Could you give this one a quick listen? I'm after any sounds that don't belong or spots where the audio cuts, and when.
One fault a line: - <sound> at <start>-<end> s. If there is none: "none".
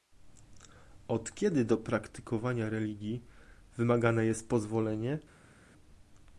none